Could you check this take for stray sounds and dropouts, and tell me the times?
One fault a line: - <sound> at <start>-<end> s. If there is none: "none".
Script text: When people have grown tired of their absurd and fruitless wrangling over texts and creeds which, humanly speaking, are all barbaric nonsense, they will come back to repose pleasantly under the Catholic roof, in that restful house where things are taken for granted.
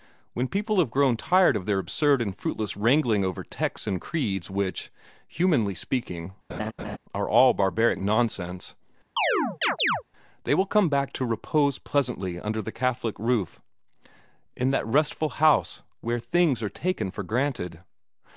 - laugh at 6.5-7.0 s
- chirp at 9.2-10.0 s